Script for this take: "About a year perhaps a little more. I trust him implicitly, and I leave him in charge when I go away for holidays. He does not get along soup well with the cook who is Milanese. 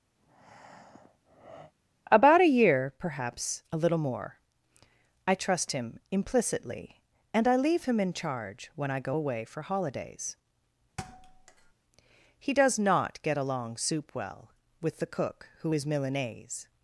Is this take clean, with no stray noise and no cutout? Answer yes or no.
no